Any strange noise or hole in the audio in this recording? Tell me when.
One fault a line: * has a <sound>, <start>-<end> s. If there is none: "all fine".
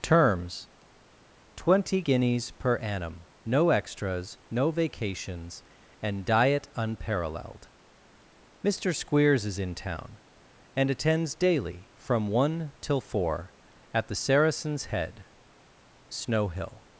all fine